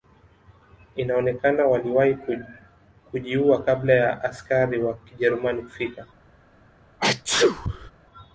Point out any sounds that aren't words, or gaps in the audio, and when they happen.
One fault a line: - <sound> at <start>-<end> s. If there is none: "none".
- sneeze at 7.0-7.9 s